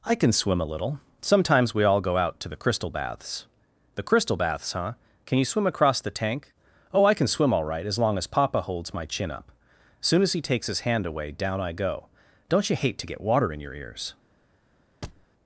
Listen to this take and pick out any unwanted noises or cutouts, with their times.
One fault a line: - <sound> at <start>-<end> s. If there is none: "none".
- thud at 15.0-15.3 s